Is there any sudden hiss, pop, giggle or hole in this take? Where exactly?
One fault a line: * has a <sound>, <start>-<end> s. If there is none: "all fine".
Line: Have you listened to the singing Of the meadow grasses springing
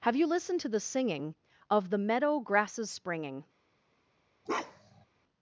* has a bark, 4.5-5.1 s